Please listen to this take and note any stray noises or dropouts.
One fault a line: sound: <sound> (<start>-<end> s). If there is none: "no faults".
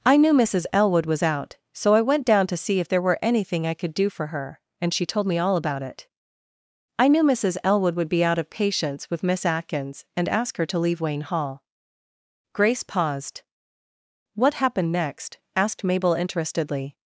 no faults